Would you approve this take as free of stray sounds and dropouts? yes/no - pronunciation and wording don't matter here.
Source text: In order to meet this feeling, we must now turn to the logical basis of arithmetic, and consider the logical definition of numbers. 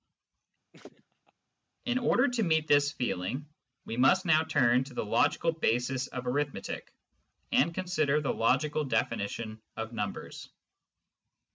no